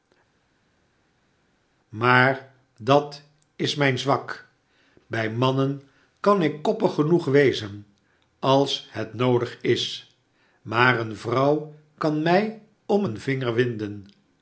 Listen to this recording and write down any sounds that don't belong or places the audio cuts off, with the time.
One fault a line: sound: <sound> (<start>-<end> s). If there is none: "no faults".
no faults